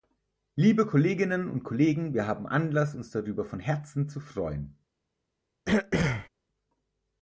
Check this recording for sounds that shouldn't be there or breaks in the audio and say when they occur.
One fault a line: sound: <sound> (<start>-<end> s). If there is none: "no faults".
sound: throat clearing (5.6-6.3 s)